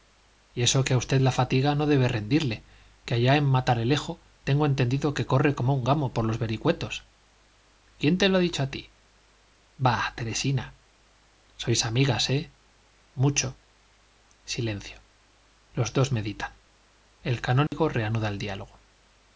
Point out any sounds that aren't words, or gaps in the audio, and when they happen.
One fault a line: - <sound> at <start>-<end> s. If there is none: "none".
- dropout at 17.7-17.7 s